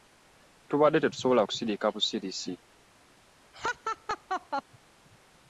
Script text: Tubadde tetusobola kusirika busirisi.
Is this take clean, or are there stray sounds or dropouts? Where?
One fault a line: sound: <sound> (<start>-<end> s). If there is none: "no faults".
sound: laugh (3.5-4.6 s)